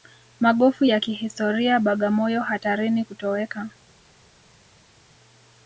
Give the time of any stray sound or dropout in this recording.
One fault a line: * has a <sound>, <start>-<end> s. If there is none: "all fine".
all fine